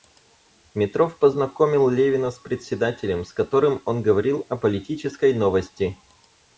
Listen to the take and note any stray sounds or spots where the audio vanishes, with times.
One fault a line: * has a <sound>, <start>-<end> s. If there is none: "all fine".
all fine